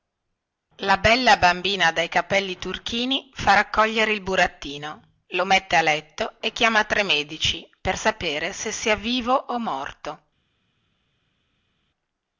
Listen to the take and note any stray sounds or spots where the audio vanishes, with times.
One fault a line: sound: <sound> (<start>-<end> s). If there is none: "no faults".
no faults